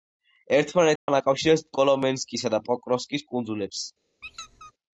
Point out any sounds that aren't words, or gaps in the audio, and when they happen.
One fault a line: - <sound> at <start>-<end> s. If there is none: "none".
- dropout at 1.0-1.1 s
- squeak at 4.2-4.7 s